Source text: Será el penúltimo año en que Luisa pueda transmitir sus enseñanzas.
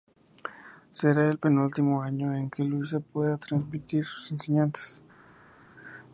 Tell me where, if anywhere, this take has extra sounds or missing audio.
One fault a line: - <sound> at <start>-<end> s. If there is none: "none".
none